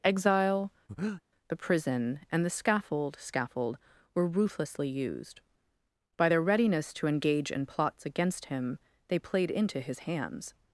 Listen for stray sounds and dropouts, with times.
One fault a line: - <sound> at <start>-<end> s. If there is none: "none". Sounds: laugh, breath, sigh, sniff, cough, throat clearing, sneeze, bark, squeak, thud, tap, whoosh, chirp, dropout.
- breath at 0.9-1.2 s